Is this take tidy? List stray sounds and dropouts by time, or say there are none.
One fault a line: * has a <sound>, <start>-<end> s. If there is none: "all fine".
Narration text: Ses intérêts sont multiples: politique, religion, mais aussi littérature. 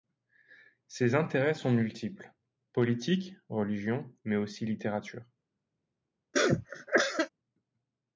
* has a cough, 6.3-7.3 s